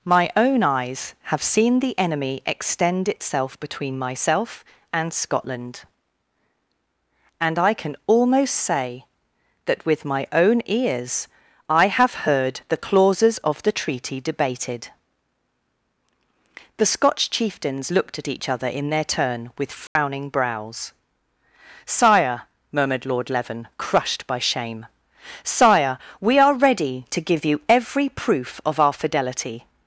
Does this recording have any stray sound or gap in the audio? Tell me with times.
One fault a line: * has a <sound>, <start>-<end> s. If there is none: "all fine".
* has a dropout, 19.9-20.0 s